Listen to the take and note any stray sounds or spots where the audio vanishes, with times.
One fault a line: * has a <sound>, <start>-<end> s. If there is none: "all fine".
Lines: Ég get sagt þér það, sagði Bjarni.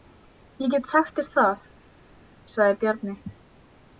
all fine